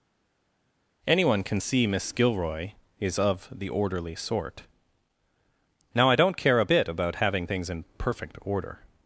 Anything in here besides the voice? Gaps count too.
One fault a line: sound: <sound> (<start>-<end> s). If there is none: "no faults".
no faults